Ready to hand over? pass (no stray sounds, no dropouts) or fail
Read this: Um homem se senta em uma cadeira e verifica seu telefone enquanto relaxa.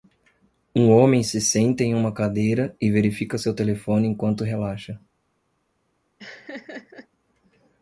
fail